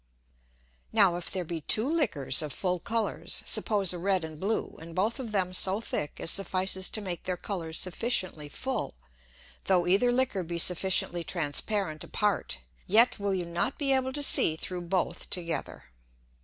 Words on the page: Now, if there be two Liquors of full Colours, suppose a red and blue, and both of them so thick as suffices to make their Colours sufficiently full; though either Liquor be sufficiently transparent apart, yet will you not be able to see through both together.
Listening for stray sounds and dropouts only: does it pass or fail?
pass